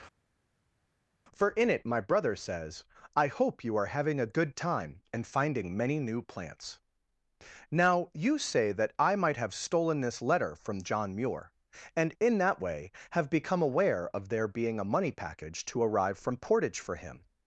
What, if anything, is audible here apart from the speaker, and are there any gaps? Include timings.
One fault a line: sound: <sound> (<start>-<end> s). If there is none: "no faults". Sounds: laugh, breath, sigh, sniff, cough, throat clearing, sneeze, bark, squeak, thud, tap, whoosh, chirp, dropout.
no faults